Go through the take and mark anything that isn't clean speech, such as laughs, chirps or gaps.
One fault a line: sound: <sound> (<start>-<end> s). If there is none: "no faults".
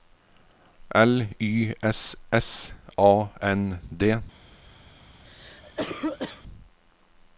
sound: cough (5.2-6.4 s)